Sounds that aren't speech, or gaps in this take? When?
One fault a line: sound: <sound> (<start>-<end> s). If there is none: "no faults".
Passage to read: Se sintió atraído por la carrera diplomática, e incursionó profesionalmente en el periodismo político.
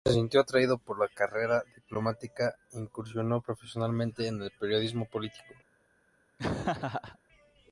sound: laugh (6.4-7.2 s)